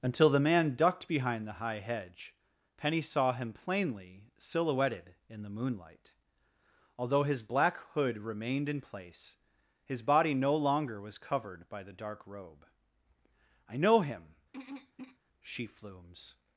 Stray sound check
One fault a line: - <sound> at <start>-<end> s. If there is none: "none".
- throat clearing at 14.5-15.2 s